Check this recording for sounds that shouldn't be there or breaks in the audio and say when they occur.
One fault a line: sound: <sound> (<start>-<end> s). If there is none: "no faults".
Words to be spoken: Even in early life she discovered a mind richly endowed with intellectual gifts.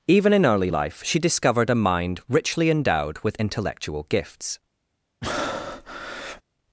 sound: breath (5.2-6.4 s)